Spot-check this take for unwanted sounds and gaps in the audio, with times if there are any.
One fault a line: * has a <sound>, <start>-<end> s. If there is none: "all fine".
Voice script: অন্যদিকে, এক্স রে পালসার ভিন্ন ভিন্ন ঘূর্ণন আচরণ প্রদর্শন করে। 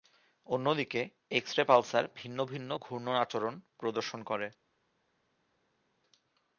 all fine